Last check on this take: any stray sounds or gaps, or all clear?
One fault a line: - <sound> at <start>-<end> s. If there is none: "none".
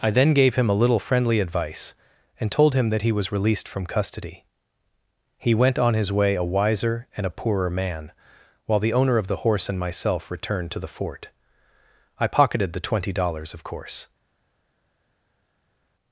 none